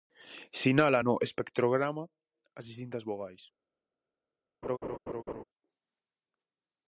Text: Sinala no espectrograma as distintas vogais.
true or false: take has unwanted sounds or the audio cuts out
true